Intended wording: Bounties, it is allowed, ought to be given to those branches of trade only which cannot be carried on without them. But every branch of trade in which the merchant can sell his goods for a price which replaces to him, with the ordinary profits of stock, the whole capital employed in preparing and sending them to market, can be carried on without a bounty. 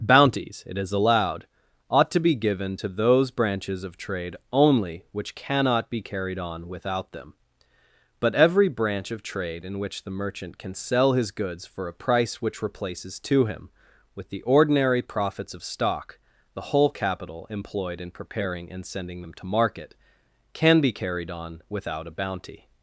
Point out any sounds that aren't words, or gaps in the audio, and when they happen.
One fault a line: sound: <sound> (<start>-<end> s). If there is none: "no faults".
no faults